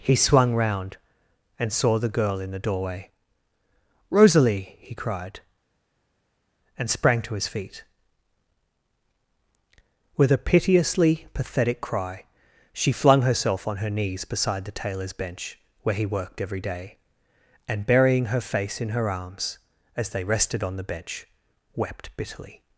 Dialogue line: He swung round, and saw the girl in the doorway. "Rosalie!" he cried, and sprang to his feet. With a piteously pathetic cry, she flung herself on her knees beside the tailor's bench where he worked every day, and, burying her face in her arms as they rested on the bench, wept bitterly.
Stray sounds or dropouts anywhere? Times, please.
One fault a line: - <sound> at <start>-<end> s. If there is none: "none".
none